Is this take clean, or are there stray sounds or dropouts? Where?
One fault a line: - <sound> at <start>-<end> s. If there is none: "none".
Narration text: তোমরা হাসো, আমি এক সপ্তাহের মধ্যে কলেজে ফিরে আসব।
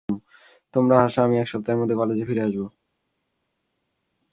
none